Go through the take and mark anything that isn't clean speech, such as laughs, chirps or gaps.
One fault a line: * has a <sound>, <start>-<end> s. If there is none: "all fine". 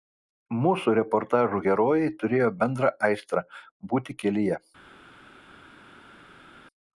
all fine